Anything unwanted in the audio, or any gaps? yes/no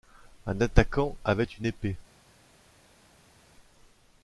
no